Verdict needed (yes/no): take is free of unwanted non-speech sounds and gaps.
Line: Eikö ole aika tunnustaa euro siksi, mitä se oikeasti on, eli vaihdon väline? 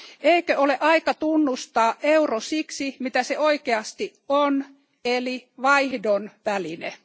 yes